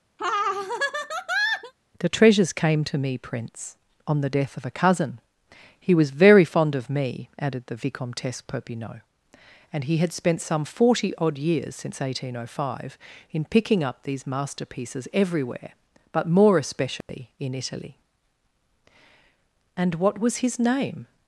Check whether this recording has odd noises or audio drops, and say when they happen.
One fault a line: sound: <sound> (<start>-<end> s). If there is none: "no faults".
sound: laugh (0.2-1.7 s)
sound: dropout (17.0-17.1 s)